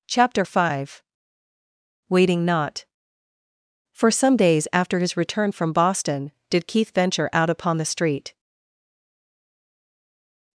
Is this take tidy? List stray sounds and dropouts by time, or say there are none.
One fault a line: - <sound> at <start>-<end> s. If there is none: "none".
none